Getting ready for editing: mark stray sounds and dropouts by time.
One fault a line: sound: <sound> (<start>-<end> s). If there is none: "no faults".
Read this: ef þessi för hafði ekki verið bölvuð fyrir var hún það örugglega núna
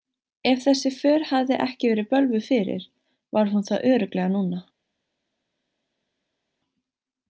no faults